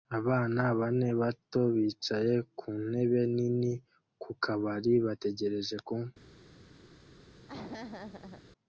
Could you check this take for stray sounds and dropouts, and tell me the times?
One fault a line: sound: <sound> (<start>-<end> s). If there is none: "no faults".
sound: laugh (7.5-8.4 s)